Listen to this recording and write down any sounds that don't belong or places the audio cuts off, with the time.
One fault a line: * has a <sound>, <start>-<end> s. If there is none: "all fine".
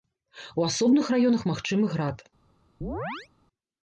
* has a chirp, 2.8-3.3 s